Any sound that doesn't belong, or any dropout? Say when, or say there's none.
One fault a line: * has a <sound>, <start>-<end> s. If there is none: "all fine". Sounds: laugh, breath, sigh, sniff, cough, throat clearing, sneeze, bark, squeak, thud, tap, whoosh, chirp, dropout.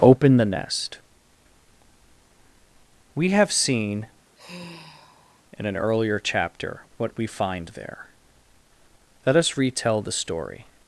* has a sigh, 4.3-5.4 s